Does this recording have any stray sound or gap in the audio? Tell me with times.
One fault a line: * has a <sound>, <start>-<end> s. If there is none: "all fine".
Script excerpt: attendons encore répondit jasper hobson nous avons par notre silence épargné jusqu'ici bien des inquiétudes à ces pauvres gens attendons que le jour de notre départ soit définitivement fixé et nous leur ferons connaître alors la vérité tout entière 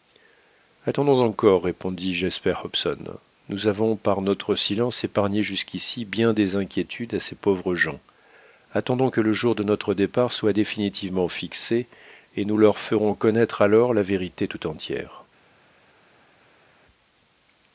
all fine